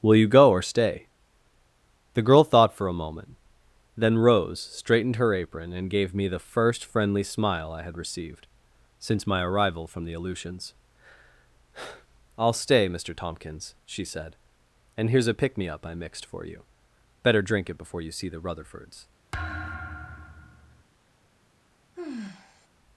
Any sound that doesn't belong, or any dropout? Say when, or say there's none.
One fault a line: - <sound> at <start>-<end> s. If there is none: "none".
- thud at 19.3-20.8 s
- sigh at 22.0-22.7 s